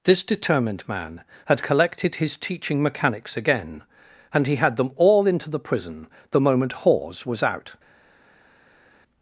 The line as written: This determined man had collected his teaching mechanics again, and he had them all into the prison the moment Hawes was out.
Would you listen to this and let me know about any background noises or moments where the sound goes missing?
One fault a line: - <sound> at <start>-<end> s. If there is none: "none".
none